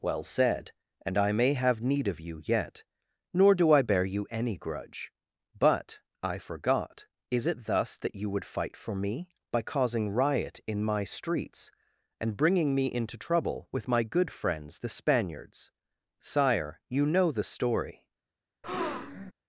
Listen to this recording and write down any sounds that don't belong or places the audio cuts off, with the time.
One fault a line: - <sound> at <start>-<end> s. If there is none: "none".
- breath at 18.6-19.3 s